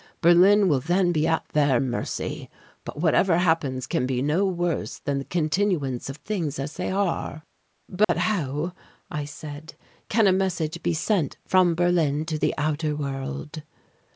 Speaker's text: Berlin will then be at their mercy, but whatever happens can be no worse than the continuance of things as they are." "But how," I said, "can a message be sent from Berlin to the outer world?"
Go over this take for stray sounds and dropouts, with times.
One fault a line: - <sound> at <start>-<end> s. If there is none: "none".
- dropout at 8.0-8.1 s